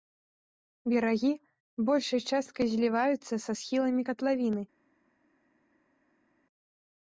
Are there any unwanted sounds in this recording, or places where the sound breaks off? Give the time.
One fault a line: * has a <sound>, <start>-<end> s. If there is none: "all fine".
all fine